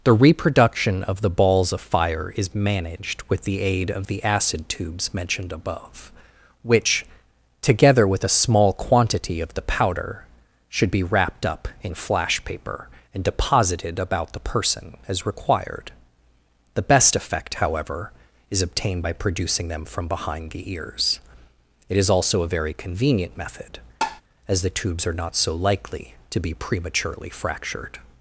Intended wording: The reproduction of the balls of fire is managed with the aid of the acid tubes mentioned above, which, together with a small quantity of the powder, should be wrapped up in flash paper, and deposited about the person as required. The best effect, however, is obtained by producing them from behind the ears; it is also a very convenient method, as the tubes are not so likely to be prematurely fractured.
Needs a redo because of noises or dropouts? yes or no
yes